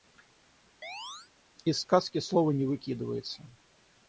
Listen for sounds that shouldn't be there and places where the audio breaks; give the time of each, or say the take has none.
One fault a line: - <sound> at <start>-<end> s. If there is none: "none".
- chirp at 0.8-1.3 s